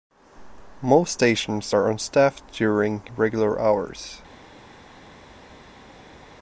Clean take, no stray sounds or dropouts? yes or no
yes